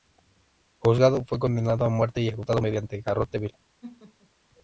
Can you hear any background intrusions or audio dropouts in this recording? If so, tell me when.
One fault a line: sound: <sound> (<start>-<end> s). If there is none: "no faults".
sound: laugh (3.8-4.3 s)